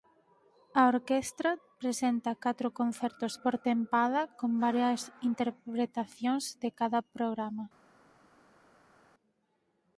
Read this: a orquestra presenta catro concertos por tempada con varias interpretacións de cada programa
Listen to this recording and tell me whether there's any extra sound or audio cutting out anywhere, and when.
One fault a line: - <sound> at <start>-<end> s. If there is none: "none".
none